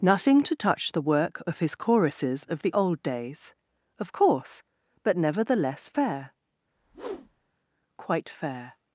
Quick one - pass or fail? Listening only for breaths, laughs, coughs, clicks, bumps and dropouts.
fail